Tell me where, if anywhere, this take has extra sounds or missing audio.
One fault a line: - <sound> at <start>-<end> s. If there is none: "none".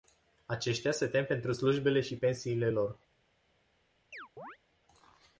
- chirp at 4.1-4.6 s